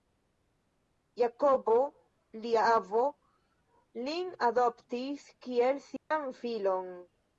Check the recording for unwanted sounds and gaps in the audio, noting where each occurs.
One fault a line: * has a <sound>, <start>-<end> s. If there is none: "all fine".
* has a dropout, 6.0-6.1 s